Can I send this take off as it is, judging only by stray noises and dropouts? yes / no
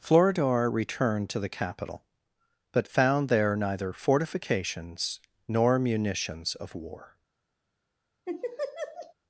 no